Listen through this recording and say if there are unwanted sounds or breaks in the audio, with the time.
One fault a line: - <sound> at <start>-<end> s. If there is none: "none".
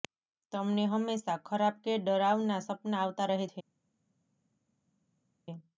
none